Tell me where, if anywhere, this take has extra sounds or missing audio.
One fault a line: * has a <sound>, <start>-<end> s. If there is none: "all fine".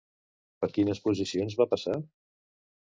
all fine